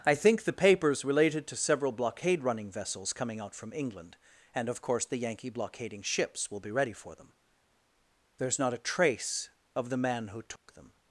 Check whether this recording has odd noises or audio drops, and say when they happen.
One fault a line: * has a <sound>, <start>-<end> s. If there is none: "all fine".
* has a dropout, 10.6-10.7 s